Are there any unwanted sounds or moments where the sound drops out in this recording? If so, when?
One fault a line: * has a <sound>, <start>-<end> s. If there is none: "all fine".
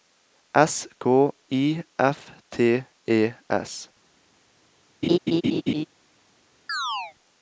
* has a laugh, 5.0-5.8 s
* has a chirp, 6.7-7.1 s